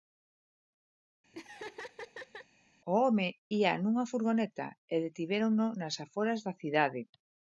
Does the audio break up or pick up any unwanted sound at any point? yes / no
yes